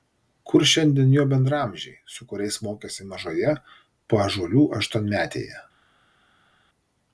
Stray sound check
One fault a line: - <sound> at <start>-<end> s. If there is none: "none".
none